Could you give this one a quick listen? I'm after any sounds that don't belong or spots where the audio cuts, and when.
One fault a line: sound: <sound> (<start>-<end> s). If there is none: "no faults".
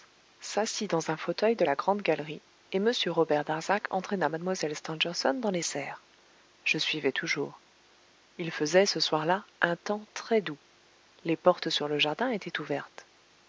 no faults